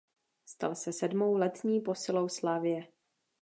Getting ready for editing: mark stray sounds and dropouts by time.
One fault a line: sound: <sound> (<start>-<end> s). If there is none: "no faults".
no faults